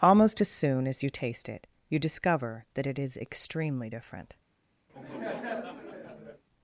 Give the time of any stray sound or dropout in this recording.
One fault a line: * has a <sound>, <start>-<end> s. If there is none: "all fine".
* has a laugh, 4.9-6.4 s